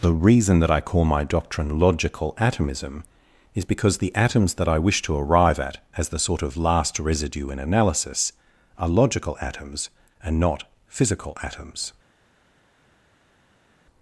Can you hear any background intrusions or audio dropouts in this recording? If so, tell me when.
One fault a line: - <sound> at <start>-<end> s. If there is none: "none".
none